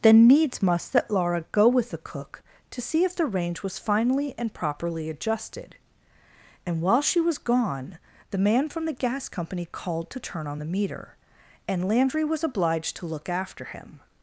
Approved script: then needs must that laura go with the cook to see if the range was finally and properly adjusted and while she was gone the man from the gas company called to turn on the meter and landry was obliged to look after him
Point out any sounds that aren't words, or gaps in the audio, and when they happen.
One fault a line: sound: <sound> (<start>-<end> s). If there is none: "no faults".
no faults